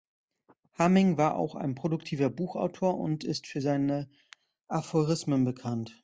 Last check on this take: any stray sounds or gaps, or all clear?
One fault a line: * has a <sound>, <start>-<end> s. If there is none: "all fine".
all fine